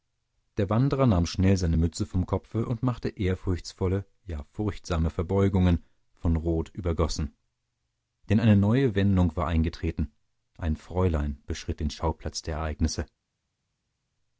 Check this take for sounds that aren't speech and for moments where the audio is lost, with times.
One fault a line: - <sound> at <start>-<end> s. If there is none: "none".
none